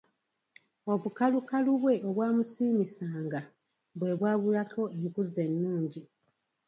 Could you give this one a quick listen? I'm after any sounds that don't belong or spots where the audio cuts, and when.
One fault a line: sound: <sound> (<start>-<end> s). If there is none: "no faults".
no faults